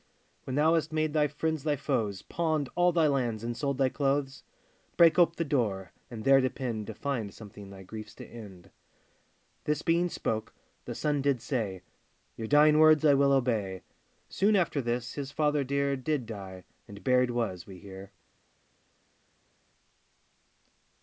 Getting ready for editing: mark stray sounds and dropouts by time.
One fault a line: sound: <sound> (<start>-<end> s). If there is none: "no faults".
no faults